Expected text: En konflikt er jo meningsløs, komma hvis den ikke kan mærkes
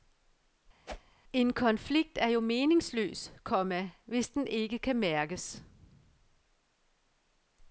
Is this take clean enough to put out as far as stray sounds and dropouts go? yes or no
no